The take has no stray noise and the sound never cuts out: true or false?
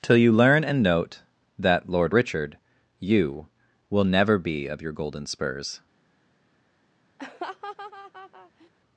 false